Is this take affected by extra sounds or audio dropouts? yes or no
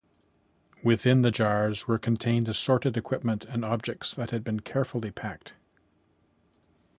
no